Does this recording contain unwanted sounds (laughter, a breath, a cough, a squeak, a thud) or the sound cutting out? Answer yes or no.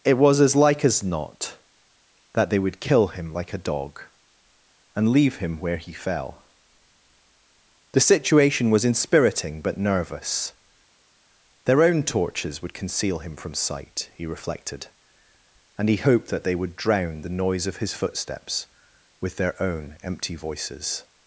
no